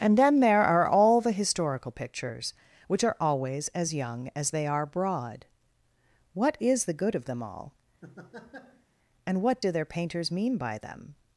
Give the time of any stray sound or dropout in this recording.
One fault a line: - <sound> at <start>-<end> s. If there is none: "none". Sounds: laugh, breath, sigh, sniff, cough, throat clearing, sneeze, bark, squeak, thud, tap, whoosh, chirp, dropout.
- laugh at 8.0-8.9 s